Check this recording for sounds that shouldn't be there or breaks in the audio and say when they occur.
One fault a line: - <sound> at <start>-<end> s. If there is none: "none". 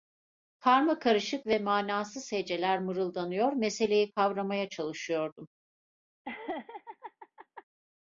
- laugh at 6.2-7.6 s